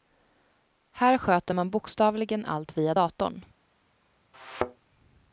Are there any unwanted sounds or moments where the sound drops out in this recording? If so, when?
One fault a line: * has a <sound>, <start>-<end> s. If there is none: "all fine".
* has a thud, 4.3-4.9 s